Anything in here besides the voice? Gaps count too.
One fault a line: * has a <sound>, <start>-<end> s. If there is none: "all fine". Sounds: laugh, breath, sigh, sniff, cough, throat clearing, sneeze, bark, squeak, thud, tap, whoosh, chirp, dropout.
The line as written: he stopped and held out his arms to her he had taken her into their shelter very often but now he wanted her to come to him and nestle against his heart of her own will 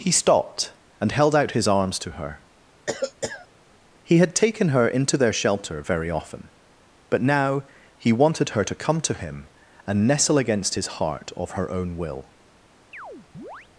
* has a cough, 2.9-3.5 s
* has a chirp, 12.9-13.7 s